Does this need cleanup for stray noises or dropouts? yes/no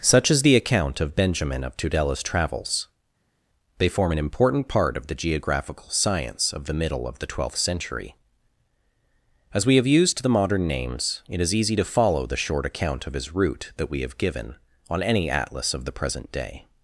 no